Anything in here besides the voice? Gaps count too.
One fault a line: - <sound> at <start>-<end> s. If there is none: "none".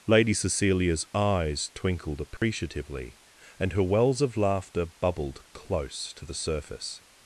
- dropout at 2.4-2.4 s